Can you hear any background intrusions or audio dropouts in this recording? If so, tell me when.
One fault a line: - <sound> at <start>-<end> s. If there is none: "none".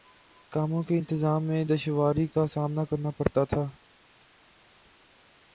none